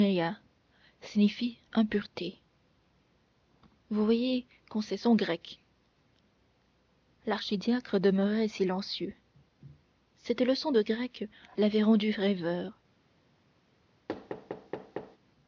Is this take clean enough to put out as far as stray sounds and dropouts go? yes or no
no